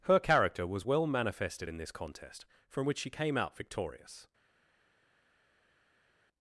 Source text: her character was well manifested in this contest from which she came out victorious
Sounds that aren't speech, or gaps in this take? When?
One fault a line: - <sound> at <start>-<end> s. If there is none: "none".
none